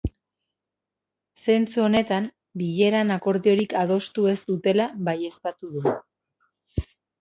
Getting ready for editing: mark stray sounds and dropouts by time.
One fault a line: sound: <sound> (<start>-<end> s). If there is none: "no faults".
no faults